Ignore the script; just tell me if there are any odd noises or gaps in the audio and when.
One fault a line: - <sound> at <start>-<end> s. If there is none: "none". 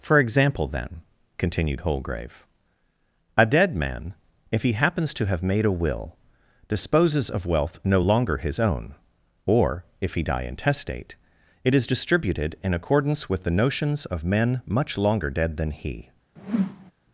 - whoosh at 16.4-16.9 s